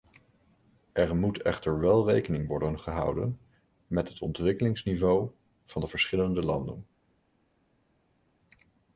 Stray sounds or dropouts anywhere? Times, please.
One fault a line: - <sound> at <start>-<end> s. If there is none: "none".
none